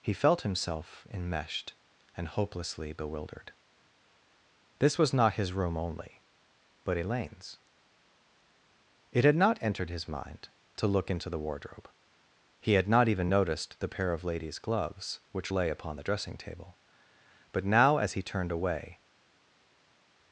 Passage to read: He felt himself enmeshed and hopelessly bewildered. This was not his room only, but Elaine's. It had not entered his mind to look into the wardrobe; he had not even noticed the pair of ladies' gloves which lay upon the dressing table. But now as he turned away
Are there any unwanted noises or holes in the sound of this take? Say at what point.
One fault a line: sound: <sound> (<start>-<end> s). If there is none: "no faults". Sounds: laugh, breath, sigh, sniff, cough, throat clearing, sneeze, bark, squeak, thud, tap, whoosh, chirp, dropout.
no faults